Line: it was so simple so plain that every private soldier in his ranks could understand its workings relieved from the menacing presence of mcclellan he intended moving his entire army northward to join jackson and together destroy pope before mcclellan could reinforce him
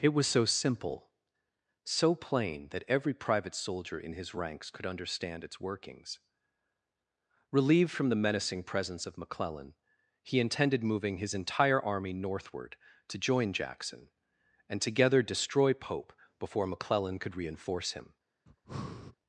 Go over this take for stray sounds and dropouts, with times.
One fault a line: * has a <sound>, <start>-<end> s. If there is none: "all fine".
* has a breath, 18.5-19.2 s